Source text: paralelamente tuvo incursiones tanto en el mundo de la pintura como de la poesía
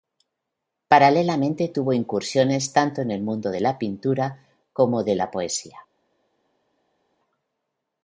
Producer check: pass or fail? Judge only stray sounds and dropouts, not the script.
pass